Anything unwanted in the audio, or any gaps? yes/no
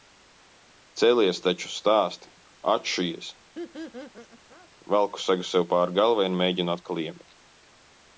yes